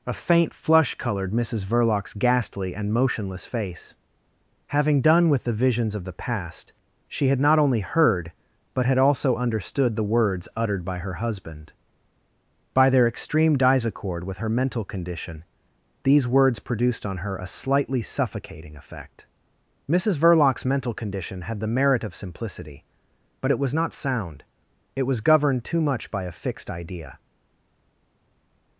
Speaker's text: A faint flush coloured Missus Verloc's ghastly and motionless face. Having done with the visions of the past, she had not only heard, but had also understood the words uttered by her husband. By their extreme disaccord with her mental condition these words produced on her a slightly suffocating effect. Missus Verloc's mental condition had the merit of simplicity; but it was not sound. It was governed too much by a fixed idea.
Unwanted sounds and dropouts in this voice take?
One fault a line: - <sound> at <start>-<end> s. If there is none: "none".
none